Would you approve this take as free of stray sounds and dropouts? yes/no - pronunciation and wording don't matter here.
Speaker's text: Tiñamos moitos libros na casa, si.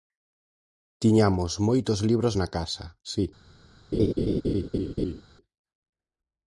no